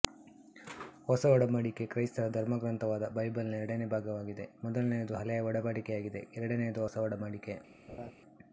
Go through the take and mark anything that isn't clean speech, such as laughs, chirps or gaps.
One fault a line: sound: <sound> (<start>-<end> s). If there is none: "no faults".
sound: laugh (7.9-8.1 s)